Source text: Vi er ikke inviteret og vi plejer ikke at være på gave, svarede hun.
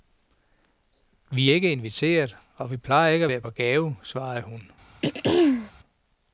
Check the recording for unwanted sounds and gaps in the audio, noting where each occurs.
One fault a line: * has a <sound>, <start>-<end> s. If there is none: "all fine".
* has a throat clearing, 5.0-5.7 s